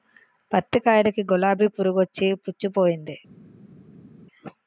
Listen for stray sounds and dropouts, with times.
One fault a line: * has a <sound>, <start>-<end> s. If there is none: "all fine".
all fine